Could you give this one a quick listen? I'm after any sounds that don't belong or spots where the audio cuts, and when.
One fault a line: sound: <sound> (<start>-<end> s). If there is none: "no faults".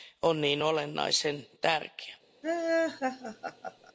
sound: laugh (2.4-3.9 s)